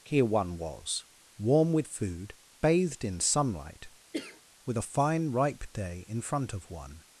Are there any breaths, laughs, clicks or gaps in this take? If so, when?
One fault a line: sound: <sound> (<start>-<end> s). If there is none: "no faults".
sound: cough (4.1-4.4 s)